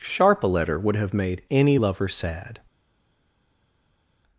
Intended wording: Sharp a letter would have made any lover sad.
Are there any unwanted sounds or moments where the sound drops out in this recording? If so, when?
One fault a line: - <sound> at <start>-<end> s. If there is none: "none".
none